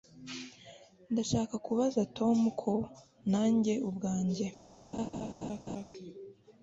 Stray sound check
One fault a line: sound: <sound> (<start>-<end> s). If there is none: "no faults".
sound: laugh (4.9-5.9 s)